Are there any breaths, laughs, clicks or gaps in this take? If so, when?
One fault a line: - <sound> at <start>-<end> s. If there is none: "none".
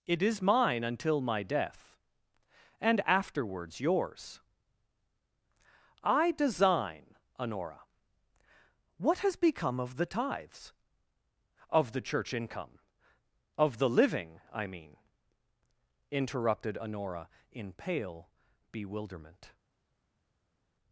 none